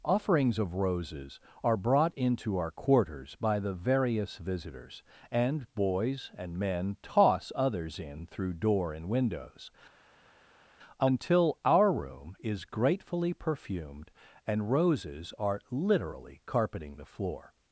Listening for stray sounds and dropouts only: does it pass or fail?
pass